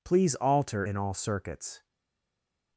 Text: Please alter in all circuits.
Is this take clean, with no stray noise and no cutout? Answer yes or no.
yes